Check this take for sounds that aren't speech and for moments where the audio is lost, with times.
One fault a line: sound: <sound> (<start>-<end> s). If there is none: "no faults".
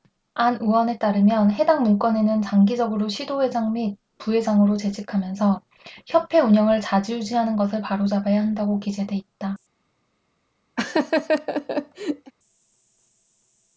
sound: laugh (10.8-12.3 s)